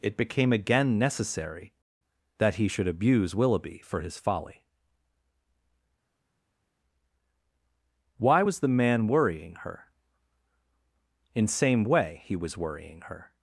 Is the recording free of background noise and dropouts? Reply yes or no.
yes